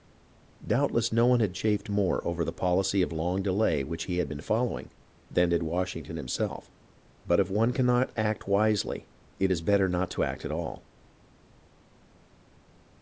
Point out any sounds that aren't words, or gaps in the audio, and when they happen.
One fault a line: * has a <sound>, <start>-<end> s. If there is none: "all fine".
all fine